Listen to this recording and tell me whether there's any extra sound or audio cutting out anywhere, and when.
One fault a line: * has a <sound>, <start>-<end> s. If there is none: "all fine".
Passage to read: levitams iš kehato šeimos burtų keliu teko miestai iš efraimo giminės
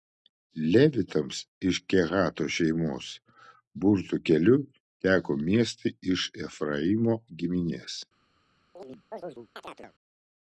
* has a chirp, 8.8-9.9 s